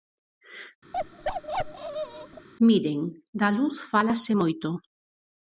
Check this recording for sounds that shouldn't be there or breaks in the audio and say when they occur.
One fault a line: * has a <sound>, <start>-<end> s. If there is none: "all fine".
* has a bark, 0.9-2.5 s